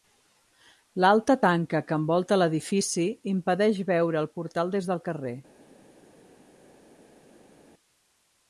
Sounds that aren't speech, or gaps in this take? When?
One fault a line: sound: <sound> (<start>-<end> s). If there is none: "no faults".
no faults